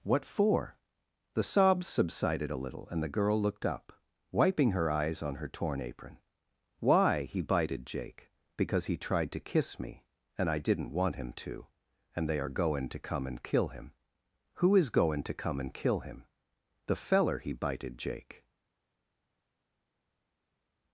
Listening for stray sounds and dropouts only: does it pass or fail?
pass